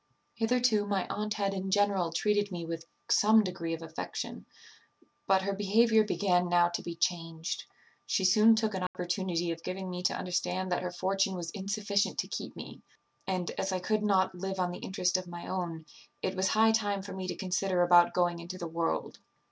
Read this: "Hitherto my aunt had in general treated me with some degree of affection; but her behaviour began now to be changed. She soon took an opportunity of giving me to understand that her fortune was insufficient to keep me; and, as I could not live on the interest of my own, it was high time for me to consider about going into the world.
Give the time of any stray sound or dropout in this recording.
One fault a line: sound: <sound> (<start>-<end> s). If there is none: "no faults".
sound: dropout (8.9-8.9 s)